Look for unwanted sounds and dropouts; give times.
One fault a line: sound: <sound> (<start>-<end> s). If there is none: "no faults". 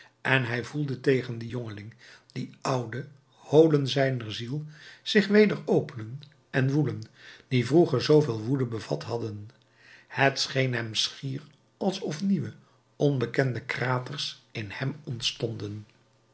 no faults